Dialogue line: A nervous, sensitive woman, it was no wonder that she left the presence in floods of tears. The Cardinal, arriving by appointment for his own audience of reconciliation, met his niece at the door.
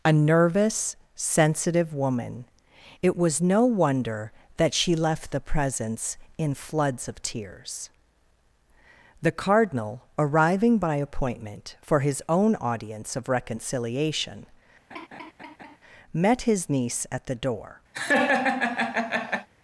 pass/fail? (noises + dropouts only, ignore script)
fail